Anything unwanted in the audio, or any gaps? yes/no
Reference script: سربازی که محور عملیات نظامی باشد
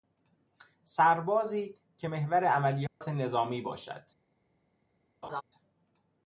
yes